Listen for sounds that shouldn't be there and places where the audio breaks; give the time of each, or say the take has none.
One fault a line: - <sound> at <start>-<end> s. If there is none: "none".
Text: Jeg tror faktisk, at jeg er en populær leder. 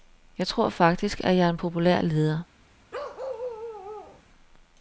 - bark at 2.9-4.2 s